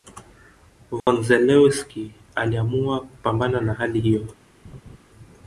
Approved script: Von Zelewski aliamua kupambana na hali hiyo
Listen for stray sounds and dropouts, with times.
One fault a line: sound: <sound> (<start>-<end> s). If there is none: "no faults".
sound: dropout (1.0-1.1 s)
sound: laugh (4.6-5.0 s)